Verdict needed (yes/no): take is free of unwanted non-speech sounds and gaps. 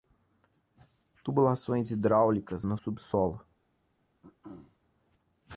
no